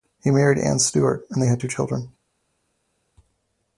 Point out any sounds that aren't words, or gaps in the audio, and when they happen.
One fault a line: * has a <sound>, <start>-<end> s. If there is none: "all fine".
all fine